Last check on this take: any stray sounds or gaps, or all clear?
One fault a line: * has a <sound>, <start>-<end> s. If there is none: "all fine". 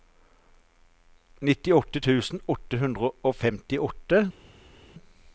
all fine